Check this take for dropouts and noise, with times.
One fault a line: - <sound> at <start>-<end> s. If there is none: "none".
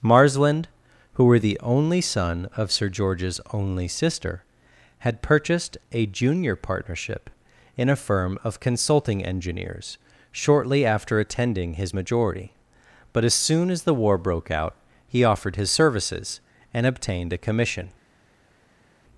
none